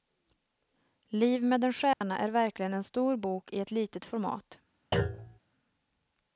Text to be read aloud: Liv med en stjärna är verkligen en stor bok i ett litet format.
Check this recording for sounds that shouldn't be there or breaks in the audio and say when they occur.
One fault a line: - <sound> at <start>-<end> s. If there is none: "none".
- dropout at 1.9-2.0 s
- thud at 4.9-5.4 s